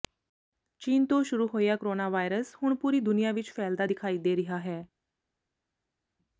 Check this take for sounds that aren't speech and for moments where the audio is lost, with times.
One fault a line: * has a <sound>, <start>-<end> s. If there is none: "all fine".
all fine